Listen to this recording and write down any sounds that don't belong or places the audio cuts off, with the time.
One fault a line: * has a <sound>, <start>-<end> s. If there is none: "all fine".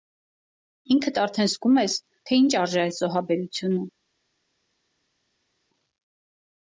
all fine